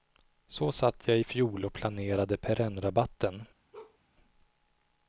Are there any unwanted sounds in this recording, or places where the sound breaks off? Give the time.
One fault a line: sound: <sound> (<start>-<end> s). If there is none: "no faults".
sound: bark (3.7-4.0 s)